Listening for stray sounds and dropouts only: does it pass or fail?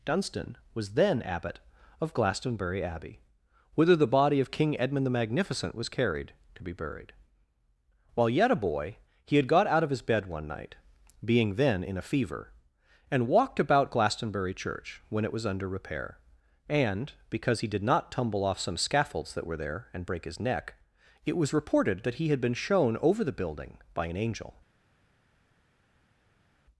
pass